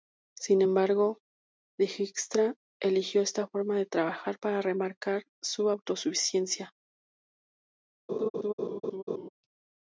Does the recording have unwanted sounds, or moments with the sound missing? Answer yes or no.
yes